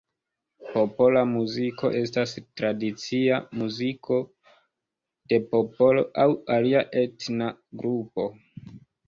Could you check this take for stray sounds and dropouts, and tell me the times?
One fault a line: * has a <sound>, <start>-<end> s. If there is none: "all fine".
all fine